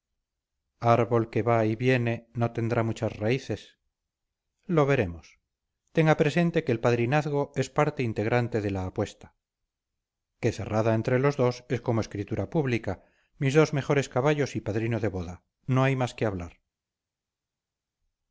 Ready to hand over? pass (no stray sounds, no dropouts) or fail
pass